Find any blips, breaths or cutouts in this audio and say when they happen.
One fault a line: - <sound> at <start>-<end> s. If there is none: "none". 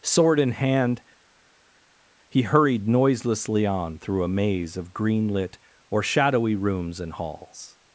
none